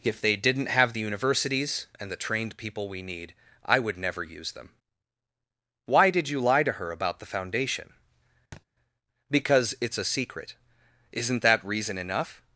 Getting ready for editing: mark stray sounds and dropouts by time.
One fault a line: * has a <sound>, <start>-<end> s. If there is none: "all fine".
* has a thud, 8.5-8.6 s